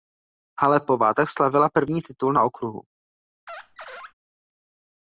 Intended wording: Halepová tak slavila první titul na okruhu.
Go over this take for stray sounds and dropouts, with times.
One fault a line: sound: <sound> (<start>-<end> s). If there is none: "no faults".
sound: squeak (3.5-4.1 s)